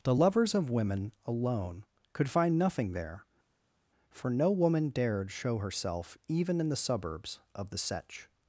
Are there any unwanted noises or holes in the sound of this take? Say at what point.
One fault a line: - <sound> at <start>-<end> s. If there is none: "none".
none